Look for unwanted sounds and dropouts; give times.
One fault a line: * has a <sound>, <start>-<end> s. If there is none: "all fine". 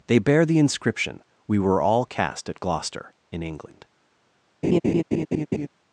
* has a laugh, 4.6-5.7 s